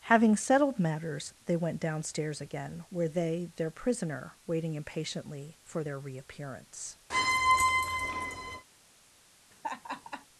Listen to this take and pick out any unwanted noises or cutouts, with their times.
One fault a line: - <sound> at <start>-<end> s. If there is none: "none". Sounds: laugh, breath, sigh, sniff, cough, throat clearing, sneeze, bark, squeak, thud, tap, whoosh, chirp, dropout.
- squeak at 7.1-8.6 s
- laugh at 9.5-10.3 s